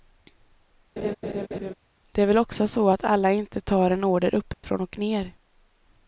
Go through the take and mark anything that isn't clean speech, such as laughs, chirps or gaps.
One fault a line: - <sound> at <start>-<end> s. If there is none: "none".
- laugh at 1.0-1.7 s
- dropout at 4.5-4.6 s